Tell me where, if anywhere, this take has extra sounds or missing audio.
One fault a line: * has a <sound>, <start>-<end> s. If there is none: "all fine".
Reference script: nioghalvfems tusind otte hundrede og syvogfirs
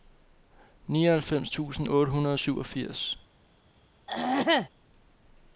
* has a throat clearing, 4.1-4.7 s